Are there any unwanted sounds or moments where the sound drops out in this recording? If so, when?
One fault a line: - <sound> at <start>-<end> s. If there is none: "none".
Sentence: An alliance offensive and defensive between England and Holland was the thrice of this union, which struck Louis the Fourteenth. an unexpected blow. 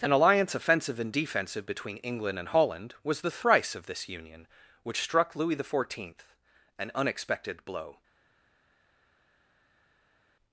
none